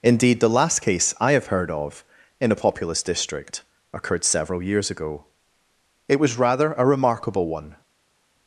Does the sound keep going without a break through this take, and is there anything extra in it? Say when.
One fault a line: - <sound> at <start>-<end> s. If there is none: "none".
none